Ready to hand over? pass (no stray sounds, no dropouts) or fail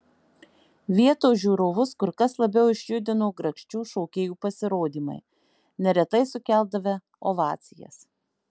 pass